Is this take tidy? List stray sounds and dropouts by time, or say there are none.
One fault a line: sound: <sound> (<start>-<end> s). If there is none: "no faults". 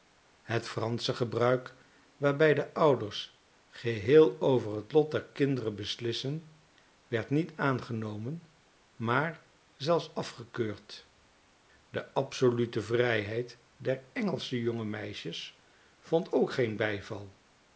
no faults